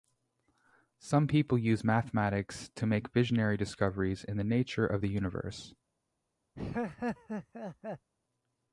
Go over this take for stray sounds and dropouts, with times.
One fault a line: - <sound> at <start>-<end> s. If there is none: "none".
- laugh at 6.5-8.1 s